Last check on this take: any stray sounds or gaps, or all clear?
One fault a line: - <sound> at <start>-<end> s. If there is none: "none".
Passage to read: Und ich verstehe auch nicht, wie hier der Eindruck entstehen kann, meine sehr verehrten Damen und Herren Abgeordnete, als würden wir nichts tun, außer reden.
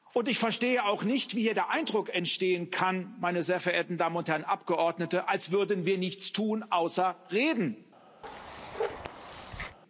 - bark at 8.2-9.8 s